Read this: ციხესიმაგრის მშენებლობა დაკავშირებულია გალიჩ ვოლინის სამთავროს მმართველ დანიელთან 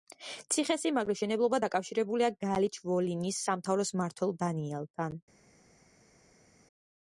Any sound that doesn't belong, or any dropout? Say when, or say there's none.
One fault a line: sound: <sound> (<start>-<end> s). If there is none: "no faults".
no faults